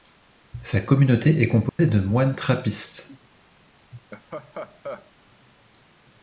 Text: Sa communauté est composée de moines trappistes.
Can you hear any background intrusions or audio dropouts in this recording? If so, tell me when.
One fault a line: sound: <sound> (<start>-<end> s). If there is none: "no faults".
sound: dropout (1.7-1.8 s)
sound: laugh (3.9-5.1 s)